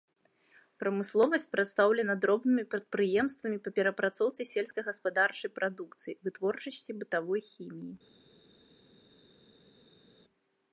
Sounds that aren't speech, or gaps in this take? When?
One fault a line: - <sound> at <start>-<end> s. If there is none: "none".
none